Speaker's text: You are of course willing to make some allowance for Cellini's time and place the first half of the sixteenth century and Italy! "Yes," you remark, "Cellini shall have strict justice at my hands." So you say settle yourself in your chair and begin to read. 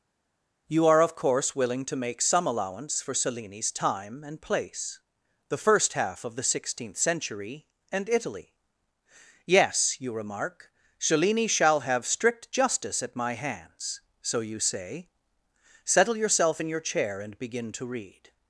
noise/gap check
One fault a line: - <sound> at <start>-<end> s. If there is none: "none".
none